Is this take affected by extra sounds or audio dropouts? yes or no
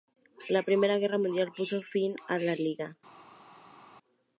no